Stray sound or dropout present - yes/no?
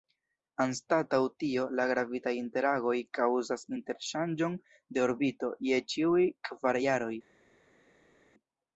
no